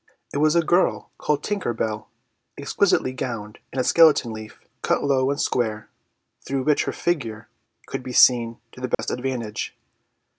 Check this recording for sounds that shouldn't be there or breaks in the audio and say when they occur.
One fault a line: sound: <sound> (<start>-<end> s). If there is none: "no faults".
sound: dropout (8.9-9.0 s)